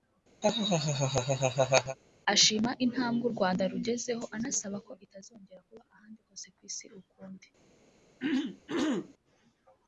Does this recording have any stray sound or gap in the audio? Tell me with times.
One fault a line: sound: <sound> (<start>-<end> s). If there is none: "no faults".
sound: laugh (0.4-2.0 s)
sound: throat clearing (8.2-9.1 s)